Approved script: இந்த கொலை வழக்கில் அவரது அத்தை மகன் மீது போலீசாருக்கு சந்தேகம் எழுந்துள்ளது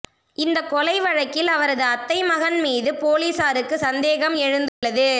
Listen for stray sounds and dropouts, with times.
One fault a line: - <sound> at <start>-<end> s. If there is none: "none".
- dropout at 4.7-4.8 s